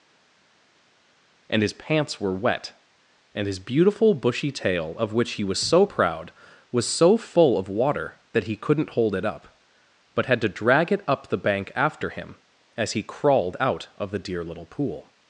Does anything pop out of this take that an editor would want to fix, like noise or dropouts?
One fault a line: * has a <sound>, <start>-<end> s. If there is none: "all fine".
all fine